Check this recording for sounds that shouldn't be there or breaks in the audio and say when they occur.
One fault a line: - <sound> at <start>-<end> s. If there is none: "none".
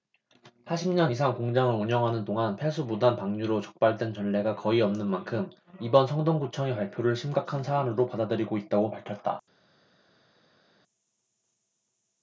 none